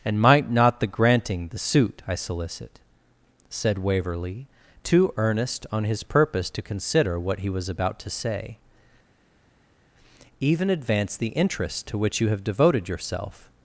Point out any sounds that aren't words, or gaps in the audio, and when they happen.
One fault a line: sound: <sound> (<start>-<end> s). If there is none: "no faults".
no faults